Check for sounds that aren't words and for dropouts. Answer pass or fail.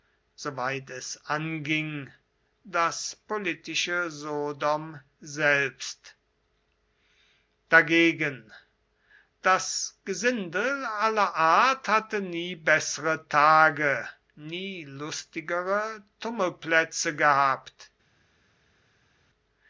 pass